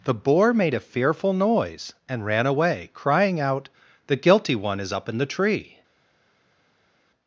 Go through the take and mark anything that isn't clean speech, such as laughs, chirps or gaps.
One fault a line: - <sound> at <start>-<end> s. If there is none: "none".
none